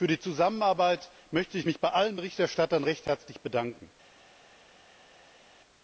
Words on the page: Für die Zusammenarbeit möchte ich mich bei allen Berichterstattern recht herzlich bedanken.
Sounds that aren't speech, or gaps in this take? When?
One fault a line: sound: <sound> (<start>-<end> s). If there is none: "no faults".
no faults